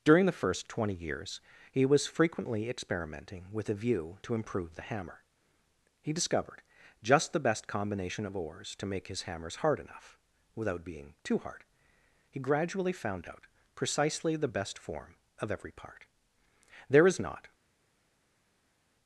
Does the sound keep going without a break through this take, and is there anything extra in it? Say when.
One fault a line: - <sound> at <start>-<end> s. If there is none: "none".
none